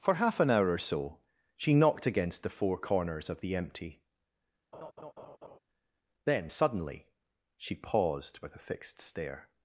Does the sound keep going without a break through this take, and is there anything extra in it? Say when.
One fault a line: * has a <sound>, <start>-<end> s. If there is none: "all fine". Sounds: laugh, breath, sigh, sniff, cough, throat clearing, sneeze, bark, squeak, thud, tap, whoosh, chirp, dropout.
* has a laugh, 4.7-5.6 s